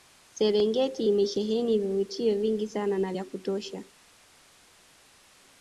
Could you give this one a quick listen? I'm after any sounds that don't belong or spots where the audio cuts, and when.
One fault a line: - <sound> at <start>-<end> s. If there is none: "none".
none